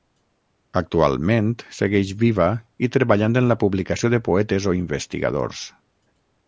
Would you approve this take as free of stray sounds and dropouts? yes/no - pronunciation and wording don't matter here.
yes